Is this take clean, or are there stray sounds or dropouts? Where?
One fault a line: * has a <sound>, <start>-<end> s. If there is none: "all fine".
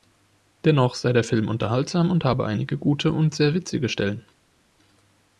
all fine